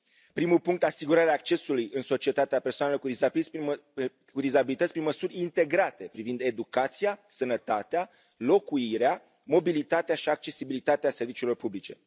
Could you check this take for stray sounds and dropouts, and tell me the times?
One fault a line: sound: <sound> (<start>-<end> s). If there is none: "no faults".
no faults